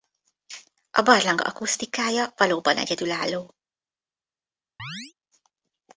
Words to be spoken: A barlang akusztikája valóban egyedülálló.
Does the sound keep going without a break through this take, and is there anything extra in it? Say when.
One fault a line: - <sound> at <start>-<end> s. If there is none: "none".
- chirp at 4.8-5.1 s